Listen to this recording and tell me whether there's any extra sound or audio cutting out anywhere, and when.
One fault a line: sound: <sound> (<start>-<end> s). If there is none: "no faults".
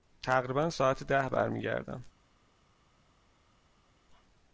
no faults